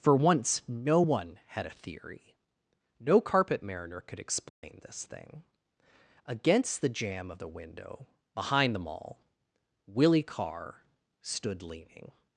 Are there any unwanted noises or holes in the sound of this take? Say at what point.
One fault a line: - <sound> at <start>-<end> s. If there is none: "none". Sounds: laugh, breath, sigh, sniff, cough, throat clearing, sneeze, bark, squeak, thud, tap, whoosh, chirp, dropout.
- dropout at 4.5-4.6 s